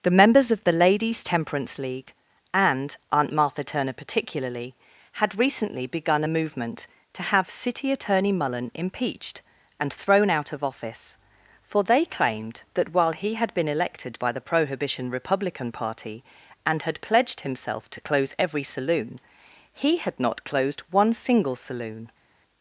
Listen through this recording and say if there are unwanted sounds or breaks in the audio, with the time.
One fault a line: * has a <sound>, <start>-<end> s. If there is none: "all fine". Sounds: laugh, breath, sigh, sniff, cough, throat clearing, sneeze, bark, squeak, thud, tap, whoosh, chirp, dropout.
all fine